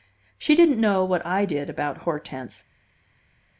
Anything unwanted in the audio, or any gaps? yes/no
no